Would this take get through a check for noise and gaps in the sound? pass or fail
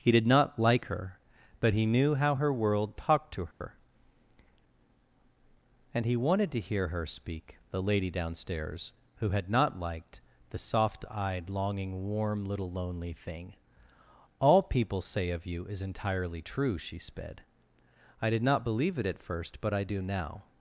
fail